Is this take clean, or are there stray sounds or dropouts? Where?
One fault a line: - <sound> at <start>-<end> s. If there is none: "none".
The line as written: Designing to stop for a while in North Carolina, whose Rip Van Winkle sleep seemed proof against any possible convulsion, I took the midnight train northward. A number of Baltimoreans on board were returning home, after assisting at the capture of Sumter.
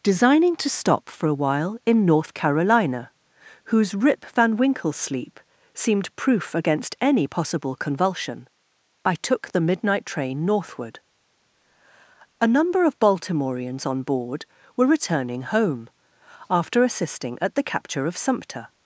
none